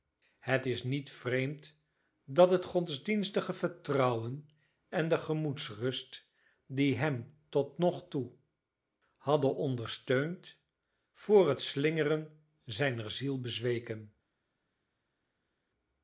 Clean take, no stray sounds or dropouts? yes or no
yes